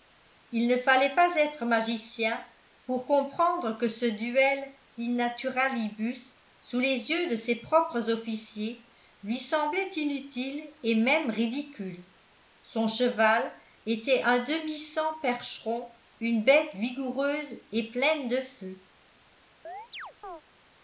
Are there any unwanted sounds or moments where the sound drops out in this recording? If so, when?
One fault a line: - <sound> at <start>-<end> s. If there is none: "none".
- chirp at 19.6-20.4 s